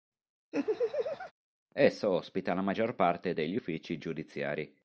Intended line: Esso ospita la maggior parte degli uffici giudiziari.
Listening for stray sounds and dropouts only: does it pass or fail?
fail